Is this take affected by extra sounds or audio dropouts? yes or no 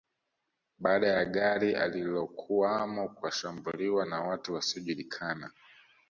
no